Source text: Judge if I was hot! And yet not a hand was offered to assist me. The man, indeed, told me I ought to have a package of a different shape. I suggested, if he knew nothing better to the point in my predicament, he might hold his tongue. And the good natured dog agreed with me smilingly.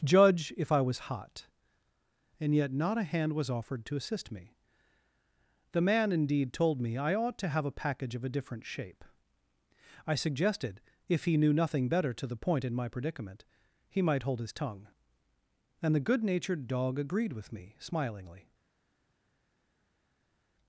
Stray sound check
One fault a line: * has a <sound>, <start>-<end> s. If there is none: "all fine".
all fine